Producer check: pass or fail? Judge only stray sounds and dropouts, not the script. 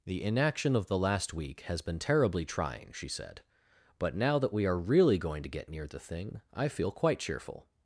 pass